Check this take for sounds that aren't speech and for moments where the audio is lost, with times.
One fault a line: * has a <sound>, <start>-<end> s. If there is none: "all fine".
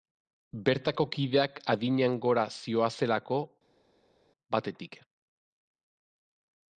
all fine